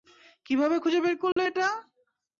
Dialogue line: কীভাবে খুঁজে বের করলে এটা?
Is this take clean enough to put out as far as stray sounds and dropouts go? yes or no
no